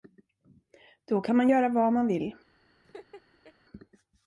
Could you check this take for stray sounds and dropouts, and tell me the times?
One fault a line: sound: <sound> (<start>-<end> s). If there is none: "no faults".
sound: laugh (2.8-3.5 s)